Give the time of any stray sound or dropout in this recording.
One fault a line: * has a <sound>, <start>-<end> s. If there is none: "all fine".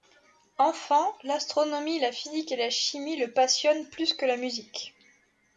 all fine